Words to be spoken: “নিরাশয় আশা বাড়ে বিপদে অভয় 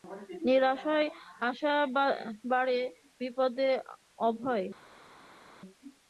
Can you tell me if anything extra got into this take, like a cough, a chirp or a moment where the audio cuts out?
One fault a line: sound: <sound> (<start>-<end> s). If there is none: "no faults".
no faults